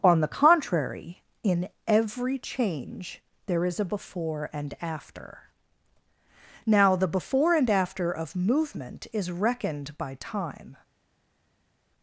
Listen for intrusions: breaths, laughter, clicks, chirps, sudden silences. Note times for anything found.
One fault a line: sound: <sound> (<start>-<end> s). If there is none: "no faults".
no faults